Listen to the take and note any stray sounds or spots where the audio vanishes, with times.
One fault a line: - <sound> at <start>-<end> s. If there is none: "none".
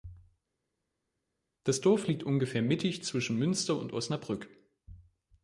none